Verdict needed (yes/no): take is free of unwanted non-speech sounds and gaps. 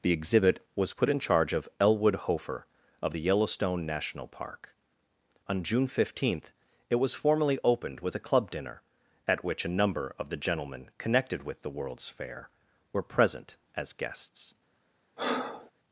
no